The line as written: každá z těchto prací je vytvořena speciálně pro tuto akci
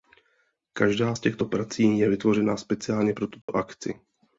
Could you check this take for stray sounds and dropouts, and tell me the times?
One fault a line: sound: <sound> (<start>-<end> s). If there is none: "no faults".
sound: dropout (3.4-3.5 s)